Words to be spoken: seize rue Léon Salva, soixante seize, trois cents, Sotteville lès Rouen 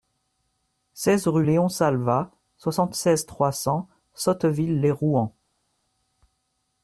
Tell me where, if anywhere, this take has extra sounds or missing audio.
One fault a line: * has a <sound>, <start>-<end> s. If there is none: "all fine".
all fine